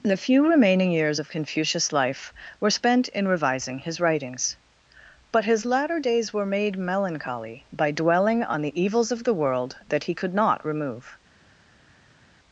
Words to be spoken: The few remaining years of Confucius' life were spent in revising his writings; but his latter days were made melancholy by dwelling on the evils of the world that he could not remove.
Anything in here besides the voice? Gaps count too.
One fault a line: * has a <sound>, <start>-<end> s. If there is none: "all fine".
all fine